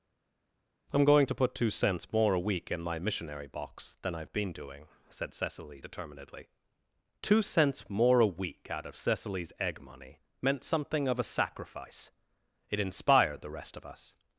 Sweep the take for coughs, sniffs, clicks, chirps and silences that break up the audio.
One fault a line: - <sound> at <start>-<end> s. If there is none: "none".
none